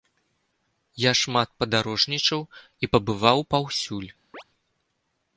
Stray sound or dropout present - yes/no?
yes